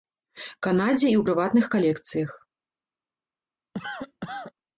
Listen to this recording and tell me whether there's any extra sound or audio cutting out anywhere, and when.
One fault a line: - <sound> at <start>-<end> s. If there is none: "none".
- cough at 3.7-4.5 s